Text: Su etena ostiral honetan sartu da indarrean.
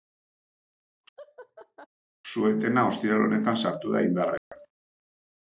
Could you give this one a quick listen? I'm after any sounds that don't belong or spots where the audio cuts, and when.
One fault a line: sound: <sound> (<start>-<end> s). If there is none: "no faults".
sound: laugh (1.2-1.9 s)
sound: dropout (4.4-4.5 s)